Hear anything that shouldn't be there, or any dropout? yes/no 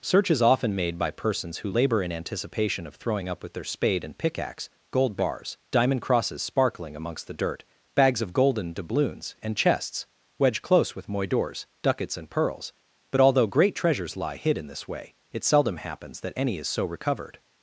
no